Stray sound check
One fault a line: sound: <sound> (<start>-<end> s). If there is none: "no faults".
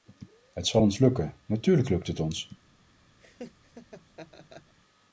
sound: laugh (3.2-4.7 s)